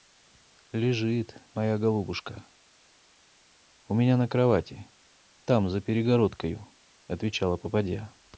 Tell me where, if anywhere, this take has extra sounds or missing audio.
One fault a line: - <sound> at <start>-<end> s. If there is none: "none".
none